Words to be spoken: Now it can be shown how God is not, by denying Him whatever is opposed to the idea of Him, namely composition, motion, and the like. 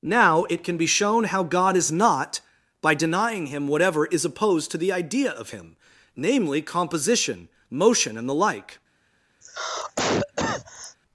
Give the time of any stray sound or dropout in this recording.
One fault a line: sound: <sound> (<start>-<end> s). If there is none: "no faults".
sound: cough (9.4-11.0 s)